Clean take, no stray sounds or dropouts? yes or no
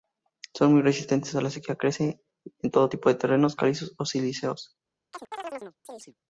no